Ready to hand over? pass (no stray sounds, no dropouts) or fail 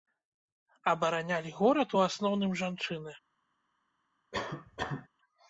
fail